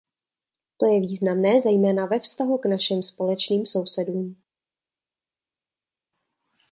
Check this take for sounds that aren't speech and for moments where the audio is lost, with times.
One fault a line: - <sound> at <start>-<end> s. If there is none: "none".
none